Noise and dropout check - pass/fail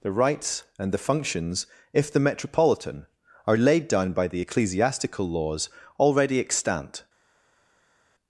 pass